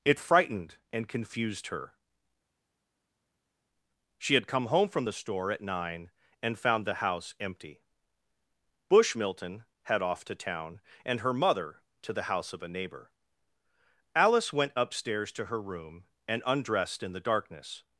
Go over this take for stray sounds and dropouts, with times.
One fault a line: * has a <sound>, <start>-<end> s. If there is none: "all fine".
all fine